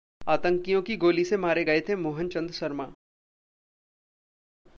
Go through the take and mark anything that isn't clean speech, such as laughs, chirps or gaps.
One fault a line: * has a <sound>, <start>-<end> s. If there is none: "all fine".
all fine